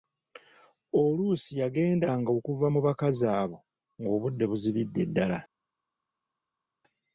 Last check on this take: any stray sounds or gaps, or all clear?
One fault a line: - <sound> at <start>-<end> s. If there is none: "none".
none